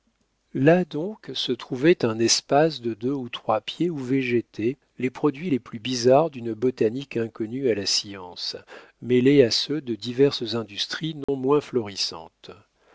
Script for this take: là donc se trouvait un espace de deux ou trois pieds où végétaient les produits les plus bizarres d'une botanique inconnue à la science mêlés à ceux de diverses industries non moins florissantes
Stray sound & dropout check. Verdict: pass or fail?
fail